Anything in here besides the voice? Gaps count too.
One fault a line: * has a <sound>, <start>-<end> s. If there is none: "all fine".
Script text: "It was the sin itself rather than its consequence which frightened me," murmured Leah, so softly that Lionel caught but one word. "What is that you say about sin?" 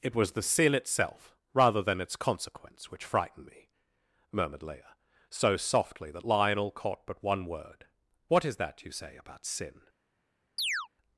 * has a chirp, 10.6-10.9 s